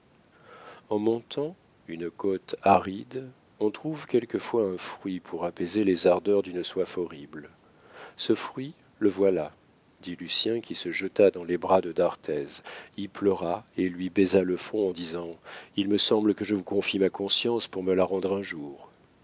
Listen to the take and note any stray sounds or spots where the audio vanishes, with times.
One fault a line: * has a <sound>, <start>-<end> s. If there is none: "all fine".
all fine